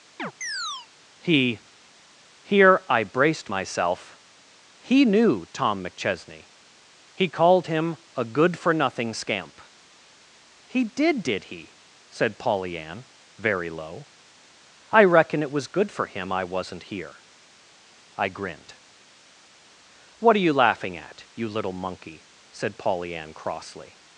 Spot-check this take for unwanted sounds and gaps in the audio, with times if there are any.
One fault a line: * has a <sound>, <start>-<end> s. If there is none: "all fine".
* has a chirp, 0.2-0.9 s